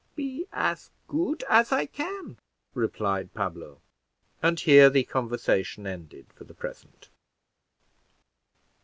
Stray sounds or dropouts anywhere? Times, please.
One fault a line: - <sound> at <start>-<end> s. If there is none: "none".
none